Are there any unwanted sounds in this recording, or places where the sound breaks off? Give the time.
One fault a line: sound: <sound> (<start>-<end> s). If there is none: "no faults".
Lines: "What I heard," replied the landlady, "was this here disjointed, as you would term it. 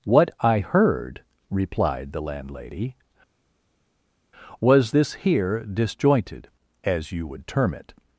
no faults